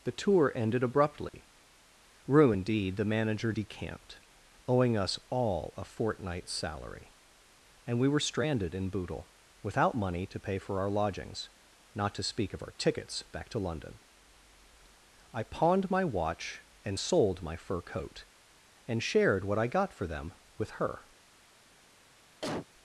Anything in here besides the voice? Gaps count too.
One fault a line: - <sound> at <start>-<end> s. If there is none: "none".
- dropout at 1.3-1.3 s
- cough at 22.4-22.7 s